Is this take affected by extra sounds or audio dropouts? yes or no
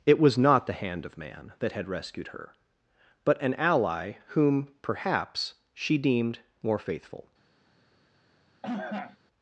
yes